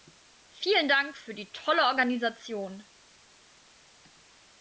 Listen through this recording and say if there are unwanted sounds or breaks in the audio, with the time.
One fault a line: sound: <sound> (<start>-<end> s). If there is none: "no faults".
no faults